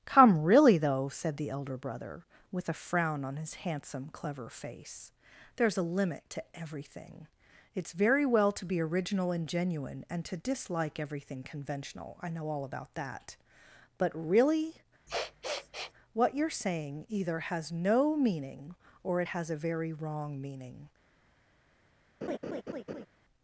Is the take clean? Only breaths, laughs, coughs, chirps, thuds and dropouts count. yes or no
no